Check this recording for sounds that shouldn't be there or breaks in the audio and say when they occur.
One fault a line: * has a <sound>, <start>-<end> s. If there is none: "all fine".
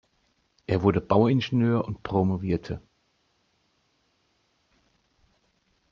all fine